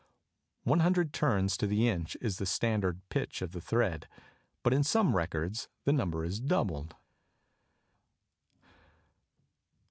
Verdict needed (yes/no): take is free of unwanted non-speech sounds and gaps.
yes